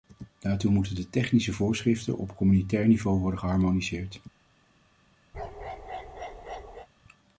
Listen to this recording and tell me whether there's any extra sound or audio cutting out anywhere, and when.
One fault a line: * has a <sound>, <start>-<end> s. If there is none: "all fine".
* has a bark, 5.3-6.9 s